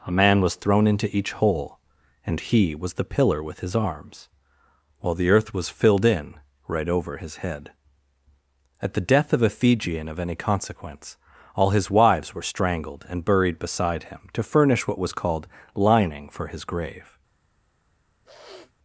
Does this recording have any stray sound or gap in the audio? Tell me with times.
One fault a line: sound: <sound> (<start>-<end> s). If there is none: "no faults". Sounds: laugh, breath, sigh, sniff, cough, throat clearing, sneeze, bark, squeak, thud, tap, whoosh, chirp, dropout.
sound: sniff (18.2-18.7 s)